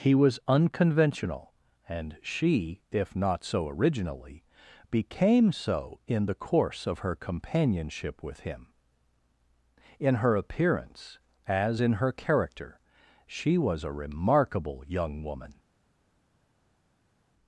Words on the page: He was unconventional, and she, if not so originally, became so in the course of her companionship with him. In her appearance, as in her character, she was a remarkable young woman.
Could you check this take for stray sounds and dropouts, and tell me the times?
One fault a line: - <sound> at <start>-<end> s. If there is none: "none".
none